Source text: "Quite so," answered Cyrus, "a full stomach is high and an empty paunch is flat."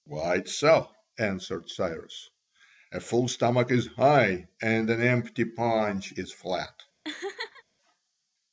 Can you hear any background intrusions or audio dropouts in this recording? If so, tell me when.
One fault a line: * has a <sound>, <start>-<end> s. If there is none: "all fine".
* has a laugh, 7.0-7.6 s